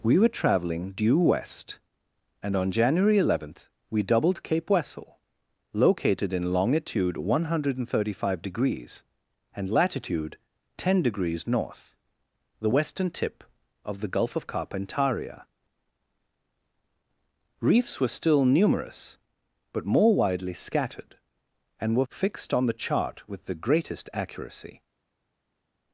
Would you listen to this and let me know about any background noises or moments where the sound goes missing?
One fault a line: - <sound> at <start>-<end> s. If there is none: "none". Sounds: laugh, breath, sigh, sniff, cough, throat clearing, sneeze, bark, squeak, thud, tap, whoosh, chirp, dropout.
none